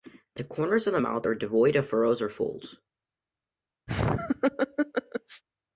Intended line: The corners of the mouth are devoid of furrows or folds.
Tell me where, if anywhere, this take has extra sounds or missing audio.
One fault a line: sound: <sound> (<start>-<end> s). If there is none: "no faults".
sound: laugh (3.9-5.4 s)